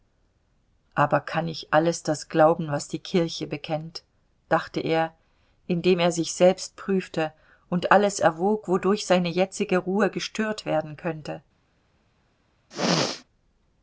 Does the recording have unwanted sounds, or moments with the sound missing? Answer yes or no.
yes